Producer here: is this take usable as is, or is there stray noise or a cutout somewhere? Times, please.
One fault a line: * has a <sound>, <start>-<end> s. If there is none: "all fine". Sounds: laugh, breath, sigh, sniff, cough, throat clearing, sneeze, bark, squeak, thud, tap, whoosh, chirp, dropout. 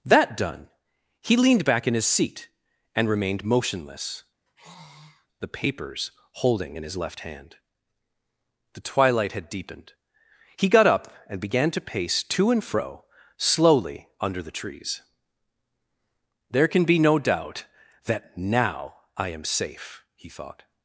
* has a sigh, 4.5-5.3 s